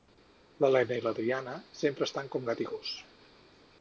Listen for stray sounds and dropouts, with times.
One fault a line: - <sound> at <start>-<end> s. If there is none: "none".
none